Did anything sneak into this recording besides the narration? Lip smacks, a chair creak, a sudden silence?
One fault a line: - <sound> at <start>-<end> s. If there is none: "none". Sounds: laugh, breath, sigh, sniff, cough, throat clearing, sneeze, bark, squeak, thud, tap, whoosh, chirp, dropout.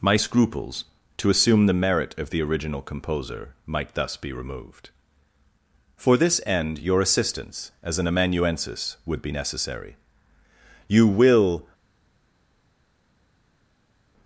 none